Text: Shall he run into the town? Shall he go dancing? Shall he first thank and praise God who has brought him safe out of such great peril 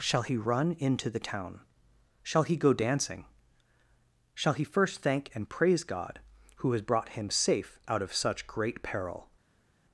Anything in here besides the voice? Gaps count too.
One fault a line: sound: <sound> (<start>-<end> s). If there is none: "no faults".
no faults